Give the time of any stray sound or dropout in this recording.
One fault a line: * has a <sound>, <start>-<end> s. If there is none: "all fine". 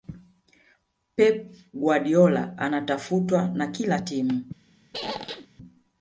* has a squeak, 4.9-5.5 s